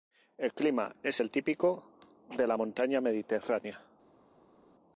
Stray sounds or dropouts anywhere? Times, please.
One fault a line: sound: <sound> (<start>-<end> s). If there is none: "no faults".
no faults